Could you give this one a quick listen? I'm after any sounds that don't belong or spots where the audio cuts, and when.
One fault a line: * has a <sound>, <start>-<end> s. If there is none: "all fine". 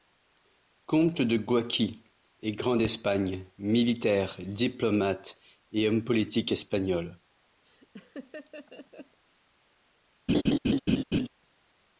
* has a laugh, 7.7-9.2 s
* has a laugh, 10.3-11.3 s